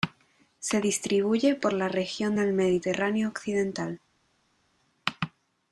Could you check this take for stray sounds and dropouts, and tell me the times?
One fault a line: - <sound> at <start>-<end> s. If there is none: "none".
none